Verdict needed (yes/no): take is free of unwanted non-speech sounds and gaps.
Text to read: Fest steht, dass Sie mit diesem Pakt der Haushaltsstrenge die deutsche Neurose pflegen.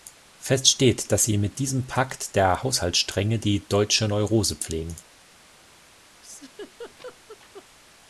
no